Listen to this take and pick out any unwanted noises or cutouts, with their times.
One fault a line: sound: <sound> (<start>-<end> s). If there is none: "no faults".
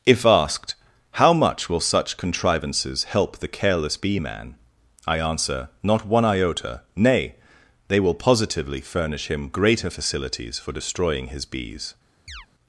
sound: chirp (12.3-12.5 s)